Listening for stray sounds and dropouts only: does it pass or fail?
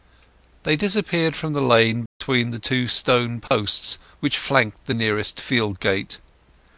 fail